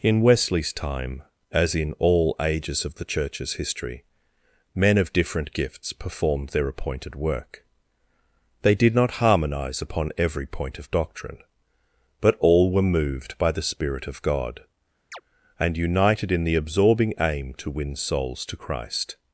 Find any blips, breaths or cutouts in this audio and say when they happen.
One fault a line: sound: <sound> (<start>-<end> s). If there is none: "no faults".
sound: chirp (15.1-15.2 s)